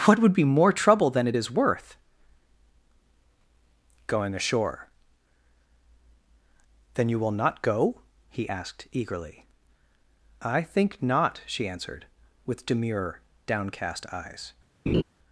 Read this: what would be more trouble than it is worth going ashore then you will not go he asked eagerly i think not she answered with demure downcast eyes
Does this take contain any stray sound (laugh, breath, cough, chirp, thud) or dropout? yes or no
yes